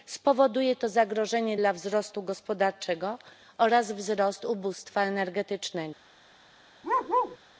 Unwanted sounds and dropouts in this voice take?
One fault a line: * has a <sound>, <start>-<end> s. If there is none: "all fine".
* has a bark, 6.8-7.4 s